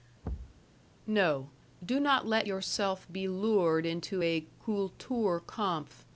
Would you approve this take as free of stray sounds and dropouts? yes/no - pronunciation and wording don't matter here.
no